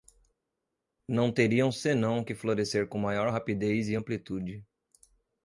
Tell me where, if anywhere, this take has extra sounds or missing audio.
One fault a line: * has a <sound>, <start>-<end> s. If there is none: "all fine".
all fine